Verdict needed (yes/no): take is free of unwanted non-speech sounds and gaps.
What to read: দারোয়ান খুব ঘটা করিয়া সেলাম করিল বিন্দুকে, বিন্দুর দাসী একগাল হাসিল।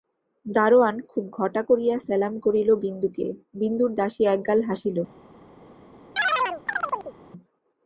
no